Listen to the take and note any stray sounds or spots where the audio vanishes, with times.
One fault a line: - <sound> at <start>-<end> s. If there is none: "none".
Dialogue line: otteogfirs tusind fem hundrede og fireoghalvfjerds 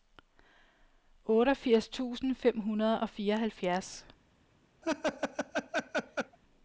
- laugh at 4.8-6.4 s